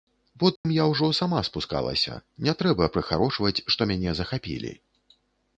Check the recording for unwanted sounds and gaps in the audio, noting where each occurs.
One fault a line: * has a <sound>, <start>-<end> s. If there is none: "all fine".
* has a dropout, 0.6-0.6 s